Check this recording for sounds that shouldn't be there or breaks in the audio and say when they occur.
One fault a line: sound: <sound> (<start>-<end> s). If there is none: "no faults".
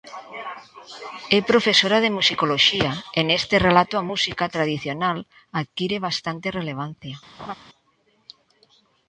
sound: laugh (7.4-7.5 s)